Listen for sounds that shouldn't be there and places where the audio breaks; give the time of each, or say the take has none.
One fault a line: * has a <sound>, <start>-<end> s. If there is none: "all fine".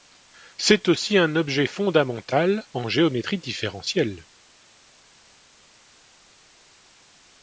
all fine